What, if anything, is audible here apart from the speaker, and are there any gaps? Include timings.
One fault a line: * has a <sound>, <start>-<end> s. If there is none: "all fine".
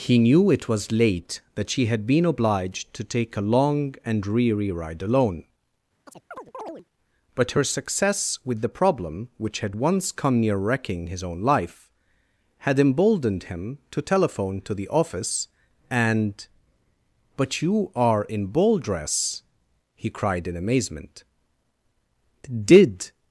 * has a chirp, 6.1-6.9 s